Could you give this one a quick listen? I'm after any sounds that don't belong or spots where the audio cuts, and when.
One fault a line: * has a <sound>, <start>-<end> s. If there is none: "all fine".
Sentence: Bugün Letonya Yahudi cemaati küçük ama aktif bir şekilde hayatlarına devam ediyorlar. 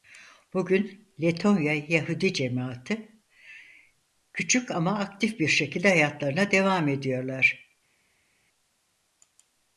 all fine